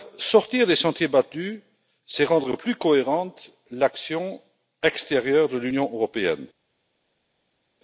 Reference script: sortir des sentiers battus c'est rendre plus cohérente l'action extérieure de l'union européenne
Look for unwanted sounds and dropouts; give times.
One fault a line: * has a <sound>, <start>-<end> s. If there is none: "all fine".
all fine